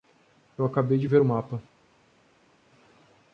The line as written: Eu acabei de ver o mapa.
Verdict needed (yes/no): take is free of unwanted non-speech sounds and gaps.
yes